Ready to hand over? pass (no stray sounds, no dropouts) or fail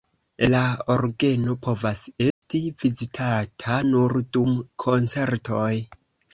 fail